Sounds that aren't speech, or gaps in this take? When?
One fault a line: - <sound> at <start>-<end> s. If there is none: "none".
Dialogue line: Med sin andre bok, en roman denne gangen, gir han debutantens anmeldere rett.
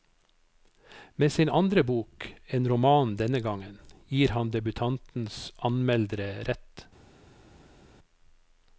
none